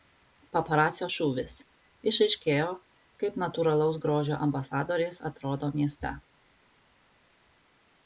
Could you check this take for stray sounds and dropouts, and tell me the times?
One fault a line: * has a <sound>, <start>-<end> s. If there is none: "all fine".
all fine